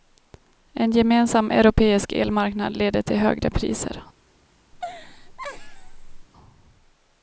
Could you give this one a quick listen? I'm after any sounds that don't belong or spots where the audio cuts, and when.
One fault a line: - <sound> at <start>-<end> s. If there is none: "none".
- laugh at 4.7-6.3 s